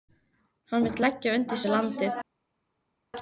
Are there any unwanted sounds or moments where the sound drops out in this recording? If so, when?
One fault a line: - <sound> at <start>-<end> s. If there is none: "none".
none